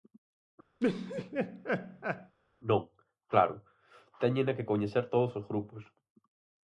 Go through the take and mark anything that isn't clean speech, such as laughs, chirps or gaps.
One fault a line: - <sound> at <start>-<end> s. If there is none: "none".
- laugh at 0.8-2.3 s